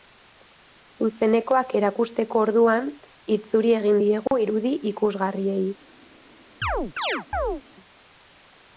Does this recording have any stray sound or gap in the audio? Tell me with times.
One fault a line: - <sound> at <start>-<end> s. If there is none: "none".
- dropout at 4.3-4.3 s
- chirp at 6.6-7.6 s